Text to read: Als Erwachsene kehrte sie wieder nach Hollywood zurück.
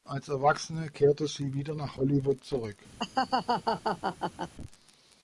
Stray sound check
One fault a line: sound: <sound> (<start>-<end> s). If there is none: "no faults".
sound: laugh (3.0-4.5 s)